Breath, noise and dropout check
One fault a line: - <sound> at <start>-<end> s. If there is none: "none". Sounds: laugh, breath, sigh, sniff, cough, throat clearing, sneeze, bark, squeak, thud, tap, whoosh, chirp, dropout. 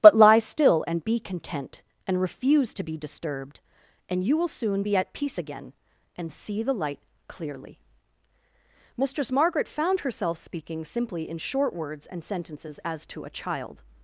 none